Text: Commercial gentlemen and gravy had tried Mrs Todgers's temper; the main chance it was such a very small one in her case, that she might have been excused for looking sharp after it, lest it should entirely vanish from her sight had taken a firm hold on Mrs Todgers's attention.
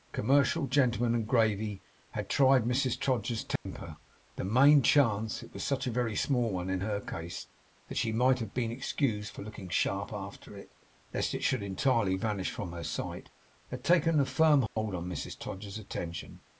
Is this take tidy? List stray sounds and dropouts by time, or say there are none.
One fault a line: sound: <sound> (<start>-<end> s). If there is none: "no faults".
sound: dropout (3.6-3.7 s)
sound: dropout (14.7-14.8 s)